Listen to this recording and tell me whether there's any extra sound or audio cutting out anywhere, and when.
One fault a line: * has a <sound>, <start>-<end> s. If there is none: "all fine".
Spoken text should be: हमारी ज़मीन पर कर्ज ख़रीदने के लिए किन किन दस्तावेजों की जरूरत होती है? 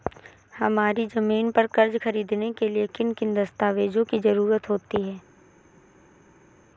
all fine